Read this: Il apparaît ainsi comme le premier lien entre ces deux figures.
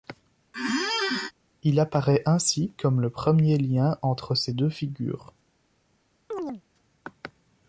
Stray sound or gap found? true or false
true